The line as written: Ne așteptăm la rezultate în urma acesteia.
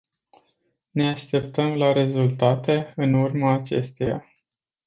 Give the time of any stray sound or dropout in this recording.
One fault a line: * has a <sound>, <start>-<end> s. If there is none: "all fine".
all fine